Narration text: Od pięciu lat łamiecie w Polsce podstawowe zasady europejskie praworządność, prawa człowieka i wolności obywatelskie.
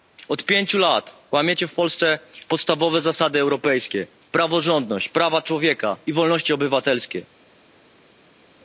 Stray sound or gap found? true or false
false